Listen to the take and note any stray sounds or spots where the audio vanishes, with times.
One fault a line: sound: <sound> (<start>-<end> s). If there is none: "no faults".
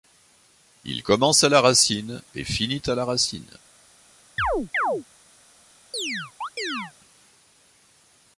sound: chirp (4.4-5.0 s)
sound: chirp (5.9-6.9 s)